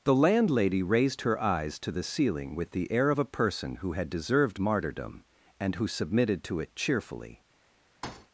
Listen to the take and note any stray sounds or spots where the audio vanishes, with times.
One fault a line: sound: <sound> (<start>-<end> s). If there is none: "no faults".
sound: thud (8.0-8.3 s)